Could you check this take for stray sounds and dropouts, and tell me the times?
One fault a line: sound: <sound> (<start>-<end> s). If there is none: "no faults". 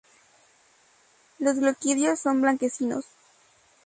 no faults